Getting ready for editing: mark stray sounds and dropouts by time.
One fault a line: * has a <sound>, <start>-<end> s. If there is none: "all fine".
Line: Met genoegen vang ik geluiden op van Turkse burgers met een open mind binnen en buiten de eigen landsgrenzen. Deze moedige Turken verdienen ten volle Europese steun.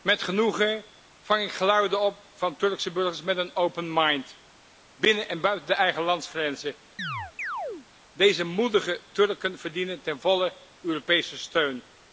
* has a chirp, 7.0-7.9 s